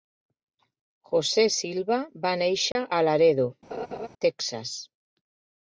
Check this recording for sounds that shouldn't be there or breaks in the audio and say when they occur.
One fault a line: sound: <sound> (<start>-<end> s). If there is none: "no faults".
sound: dropout (2.7-2.8 s)
sound: laugh (3.7-4.1 s)